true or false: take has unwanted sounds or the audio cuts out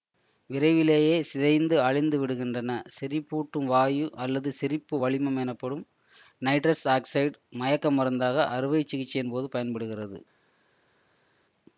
false